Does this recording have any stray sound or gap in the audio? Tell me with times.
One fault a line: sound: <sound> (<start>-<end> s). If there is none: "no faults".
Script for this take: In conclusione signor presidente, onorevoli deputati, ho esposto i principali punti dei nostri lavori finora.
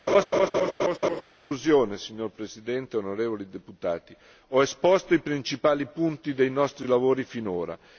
sound: laugh (0.1-1.2 s)